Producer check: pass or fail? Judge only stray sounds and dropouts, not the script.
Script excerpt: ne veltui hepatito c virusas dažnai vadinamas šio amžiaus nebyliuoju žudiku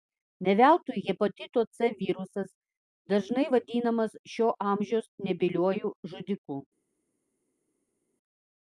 pass